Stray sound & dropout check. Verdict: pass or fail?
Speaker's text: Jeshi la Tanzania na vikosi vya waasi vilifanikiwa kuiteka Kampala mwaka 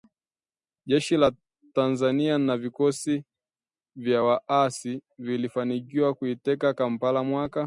pass